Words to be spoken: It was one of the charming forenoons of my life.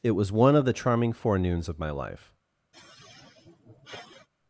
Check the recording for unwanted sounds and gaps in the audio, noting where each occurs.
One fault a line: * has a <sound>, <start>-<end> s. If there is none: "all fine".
* has a sigh, 2.7-4.3 s